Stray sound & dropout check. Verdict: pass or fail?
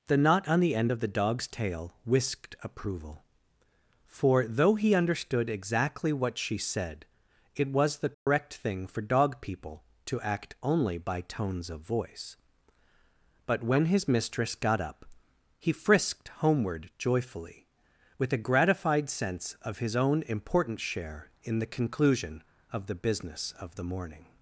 fail